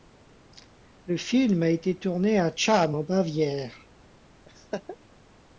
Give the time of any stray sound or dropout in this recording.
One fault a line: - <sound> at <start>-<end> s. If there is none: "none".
- laugh at 4.5-5.0 s